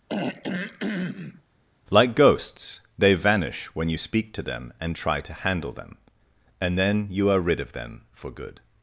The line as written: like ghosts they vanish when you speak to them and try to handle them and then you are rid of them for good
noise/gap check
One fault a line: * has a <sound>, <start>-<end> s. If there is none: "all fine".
* has a throat clearing, 0.1-1.4 s